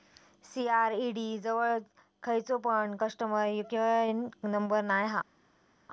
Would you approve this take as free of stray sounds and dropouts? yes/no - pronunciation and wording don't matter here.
yes